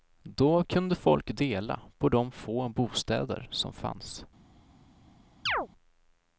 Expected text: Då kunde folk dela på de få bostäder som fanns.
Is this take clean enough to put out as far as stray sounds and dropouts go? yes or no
no